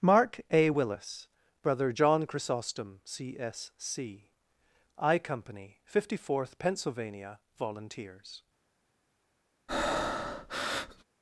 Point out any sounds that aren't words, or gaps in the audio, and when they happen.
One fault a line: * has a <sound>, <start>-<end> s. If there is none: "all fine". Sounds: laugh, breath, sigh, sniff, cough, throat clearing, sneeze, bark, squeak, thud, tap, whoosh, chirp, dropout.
* has a breath, 9.7-11.0 s